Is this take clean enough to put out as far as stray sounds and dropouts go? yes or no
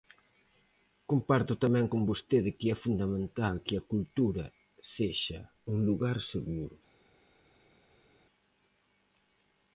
yes